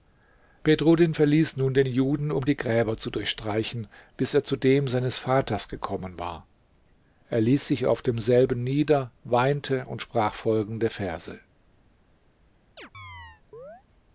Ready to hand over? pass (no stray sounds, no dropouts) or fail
fail